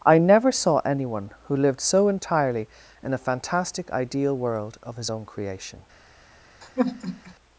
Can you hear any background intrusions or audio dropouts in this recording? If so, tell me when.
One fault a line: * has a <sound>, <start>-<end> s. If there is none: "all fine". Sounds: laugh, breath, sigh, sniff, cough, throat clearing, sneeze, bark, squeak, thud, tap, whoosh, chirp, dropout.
* has a sigh, 6.6-7.3 s